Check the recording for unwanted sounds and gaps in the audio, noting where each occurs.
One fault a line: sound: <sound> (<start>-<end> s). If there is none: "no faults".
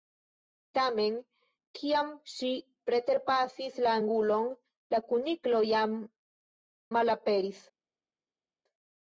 no faults